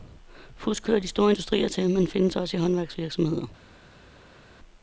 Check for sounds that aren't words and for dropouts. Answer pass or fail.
pass